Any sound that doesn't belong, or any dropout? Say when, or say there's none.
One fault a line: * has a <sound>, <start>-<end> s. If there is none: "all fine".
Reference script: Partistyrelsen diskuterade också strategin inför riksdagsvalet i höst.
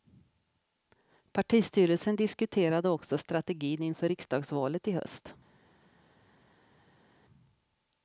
all fine